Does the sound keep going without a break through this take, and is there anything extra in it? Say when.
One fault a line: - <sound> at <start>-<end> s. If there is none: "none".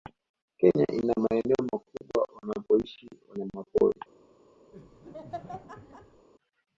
- laugh at 4.7-6.3 s